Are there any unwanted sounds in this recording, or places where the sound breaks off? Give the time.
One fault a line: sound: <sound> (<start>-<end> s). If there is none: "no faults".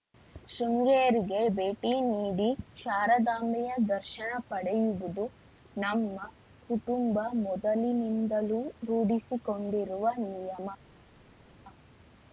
no faults